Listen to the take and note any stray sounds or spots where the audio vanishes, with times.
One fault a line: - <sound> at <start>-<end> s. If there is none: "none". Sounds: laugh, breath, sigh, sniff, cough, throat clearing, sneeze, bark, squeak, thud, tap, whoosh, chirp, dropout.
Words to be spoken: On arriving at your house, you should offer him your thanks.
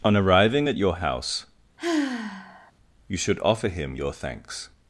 - sigh at 1.8-2.7 s